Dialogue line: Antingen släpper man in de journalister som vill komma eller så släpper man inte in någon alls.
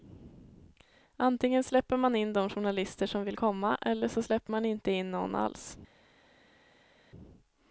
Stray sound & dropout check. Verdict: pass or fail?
pass